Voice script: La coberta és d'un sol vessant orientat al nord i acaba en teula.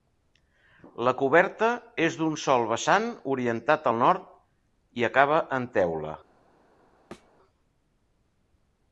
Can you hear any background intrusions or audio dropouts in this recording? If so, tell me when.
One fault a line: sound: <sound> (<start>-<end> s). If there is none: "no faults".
sound: thud (7.1-7.3 s)